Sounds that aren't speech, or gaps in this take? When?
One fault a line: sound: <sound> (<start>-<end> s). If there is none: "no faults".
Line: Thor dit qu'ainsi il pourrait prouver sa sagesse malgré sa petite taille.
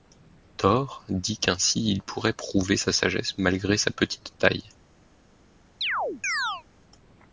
sound: chirp (5.8-6.6 s)